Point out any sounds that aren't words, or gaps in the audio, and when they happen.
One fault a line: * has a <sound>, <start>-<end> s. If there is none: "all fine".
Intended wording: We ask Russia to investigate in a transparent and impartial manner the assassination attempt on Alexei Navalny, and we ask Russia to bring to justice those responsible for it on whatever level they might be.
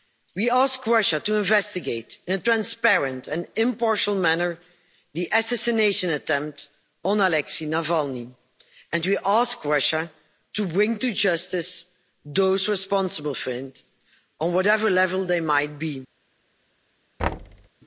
* has a thud, 17.2-17.7 s